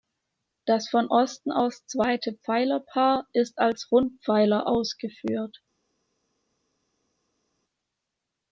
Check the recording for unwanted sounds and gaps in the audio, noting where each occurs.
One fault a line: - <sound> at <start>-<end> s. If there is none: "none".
none